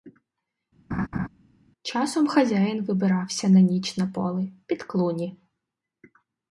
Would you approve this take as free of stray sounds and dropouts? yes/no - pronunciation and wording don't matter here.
no